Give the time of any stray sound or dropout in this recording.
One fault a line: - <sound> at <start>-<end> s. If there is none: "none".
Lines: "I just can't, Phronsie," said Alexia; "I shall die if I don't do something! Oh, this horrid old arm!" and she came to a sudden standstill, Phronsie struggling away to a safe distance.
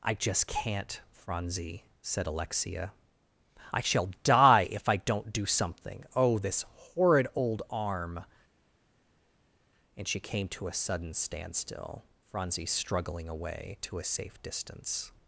none